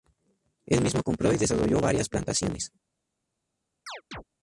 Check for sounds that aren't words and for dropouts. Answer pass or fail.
fail